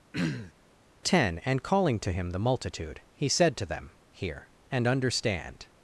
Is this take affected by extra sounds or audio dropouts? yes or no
yes